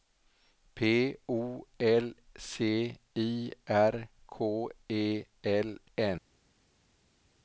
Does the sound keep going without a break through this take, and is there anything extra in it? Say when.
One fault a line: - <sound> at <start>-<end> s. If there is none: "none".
none